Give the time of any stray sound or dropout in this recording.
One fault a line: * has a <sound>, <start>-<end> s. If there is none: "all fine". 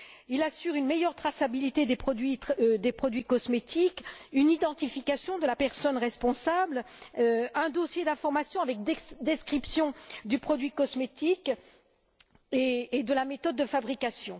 all fine